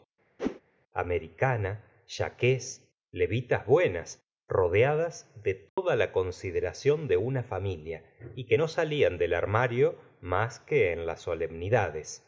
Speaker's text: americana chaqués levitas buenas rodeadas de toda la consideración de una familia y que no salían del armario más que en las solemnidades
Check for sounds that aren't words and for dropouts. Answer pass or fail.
fail